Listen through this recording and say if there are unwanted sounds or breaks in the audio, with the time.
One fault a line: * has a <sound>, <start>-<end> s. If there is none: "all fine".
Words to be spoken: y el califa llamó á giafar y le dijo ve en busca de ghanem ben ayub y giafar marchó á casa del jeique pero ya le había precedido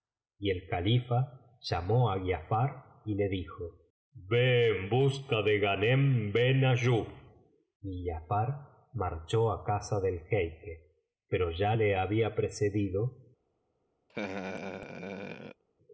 * has a laugh, 14.1-15.6 s